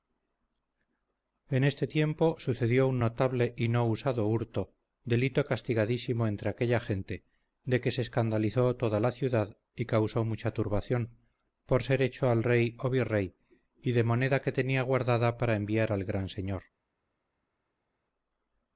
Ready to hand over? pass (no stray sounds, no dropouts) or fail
pass